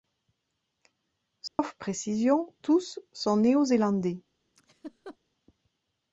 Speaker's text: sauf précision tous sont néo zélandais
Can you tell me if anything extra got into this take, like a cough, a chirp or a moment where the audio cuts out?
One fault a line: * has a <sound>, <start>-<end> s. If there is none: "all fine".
* has a dropout, 1.5-1.6 s
* has a laugh, 4.6-5.2 s